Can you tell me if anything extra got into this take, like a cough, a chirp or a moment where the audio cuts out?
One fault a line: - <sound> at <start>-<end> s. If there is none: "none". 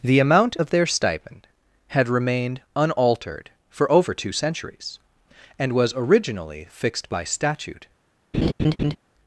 - laugh at 8.3-9.0 s